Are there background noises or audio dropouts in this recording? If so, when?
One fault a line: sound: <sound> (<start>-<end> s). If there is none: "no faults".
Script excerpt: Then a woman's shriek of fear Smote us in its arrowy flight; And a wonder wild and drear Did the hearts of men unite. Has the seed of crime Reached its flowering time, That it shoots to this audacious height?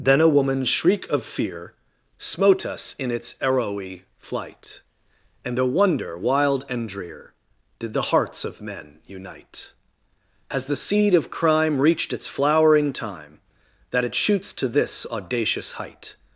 no faults